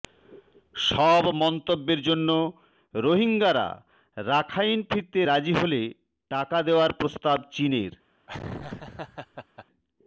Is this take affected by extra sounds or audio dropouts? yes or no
yes